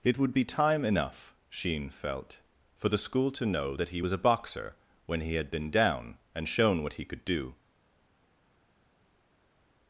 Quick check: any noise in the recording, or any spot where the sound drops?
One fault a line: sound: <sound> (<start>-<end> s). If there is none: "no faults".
no faults